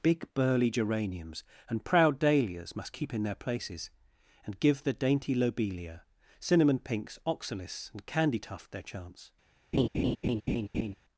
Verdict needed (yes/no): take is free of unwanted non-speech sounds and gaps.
no